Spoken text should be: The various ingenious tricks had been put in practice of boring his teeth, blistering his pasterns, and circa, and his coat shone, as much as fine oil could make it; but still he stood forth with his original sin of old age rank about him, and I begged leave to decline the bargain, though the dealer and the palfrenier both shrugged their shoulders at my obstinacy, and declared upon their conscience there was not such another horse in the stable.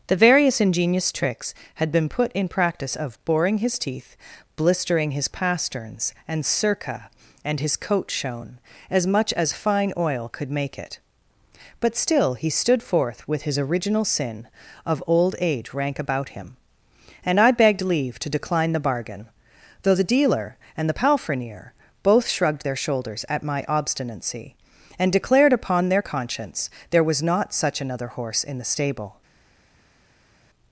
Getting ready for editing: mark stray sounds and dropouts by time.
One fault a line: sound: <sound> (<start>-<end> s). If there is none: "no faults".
no faults